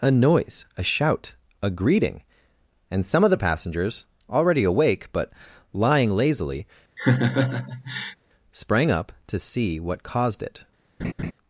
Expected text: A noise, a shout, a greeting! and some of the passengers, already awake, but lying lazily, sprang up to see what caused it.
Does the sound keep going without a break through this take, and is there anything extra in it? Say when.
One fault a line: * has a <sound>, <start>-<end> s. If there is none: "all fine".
* has a laugh, 7.0-8.2 s
* has a laugh, 11.0-11.3 s